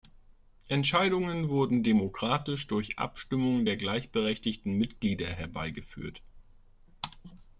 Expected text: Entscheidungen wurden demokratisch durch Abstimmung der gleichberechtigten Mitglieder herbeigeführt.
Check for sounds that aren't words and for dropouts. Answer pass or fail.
pass